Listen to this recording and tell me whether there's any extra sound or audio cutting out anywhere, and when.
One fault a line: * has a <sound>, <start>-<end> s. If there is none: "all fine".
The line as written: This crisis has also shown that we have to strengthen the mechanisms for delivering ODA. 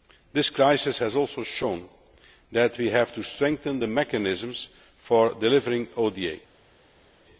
all fine